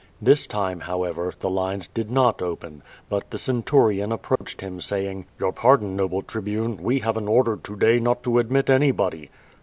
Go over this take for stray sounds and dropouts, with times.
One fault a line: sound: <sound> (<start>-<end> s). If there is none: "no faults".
sound: dropout (4.4-4.4 s)